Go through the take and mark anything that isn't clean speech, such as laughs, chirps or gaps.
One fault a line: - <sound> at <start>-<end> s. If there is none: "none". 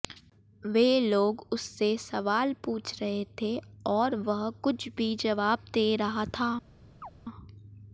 - chirp at 7.0-7.1 s